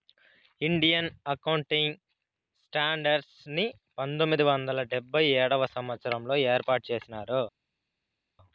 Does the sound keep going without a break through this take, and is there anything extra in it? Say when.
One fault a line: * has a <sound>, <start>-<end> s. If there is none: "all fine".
all fine